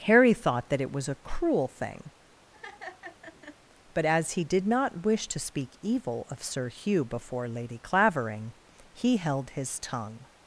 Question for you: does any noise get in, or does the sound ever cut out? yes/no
yes